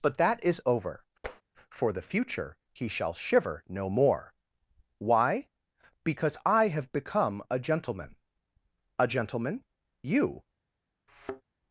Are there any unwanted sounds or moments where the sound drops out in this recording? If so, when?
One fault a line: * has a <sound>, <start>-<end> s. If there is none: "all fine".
* has a tap, 1.2-1.4 s
* has a thud, 11.1-11.4 s